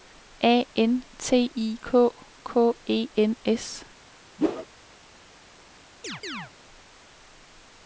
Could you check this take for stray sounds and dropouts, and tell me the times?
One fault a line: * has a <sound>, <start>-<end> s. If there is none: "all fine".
* has a whoosh, 4.4-4.7 s
* has a chirp, 6.0-6.5 s